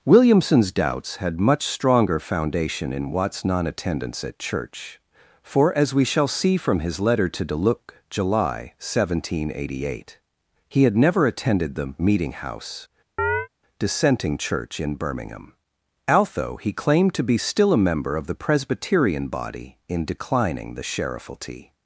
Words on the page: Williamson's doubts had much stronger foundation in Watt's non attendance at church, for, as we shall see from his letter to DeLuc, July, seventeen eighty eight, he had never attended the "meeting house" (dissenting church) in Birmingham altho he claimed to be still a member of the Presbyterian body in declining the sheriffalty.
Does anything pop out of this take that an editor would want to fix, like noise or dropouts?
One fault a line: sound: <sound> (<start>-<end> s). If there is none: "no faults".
sound: chirp (13.2-13.5 s)